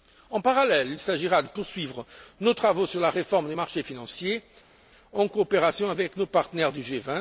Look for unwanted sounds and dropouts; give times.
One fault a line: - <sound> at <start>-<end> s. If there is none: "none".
none